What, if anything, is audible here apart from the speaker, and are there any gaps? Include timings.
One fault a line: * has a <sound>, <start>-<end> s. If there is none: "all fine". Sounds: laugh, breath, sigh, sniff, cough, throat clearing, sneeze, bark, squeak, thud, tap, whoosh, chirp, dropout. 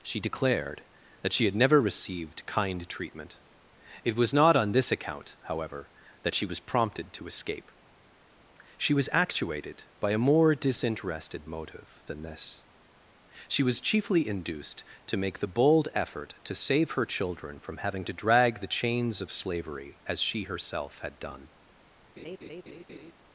* has a laugh, 22.2-23.1 s